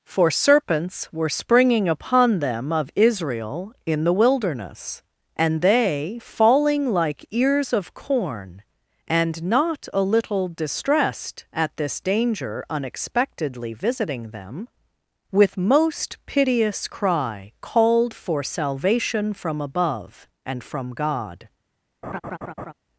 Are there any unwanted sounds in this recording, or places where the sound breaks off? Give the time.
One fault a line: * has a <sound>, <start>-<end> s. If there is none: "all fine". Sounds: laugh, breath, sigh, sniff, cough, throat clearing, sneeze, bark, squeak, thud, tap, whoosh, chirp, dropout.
* has a laugh, 22.0-22.7 s